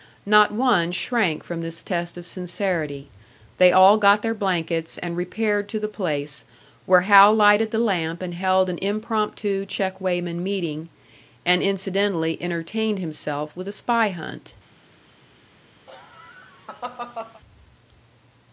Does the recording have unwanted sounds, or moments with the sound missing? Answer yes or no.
yes